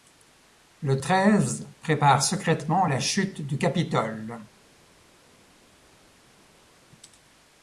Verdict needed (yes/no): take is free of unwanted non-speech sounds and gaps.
yes